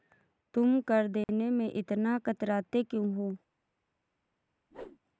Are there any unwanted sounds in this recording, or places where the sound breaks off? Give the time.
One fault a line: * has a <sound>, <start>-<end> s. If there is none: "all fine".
* has a dropout, 1.2-1.3 s
* has a whoosh, 4.7-5.0 s